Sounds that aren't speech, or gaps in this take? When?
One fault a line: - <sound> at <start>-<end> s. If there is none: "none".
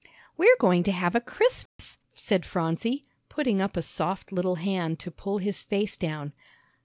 - dropout at 1.7-1.8 s